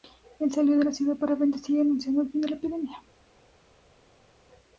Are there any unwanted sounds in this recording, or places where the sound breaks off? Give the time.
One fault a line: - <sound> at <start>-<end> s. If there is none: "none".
none